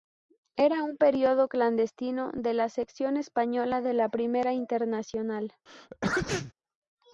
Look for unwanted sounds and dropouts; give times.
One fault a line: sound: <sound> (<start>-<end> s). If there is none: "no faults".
sound: sneeze (5.7-6.5 s)